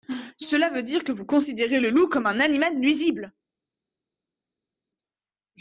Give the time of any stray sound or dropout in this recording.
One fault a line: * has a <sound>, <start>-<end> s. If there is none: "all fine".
all fine